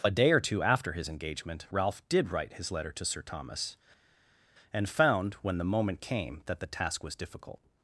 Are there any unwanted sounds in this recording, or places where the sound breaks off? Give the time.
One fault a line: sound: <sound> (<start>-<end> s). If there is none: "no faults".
no faults